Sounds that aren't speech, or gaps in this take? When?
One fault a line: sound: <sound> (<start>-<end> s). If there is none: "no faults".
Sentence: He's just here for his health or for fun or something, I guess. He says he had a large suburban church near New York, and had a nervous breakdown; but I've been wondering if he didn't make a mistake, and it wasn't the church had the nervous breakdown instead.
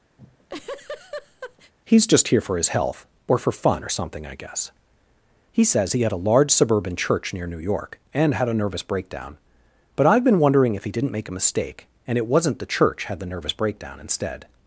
sound: laugh (0.2-1.7 s)